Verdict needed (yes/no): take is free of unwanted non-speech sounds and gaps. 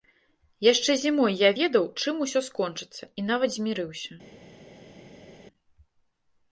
yes